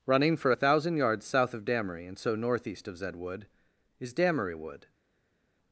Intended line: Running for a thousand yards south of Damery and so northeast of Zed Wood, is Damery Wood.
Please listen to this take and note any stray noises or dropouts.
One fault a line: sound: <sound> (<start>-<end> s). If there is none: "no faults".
no faults